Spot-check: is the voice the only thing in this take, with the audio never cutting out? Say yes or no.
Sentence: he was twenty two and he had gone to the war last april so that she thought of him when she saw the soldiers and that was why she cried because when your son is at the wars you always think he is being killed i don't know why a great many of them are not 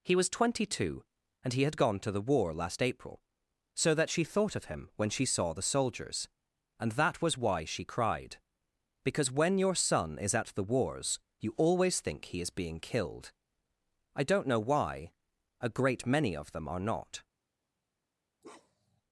no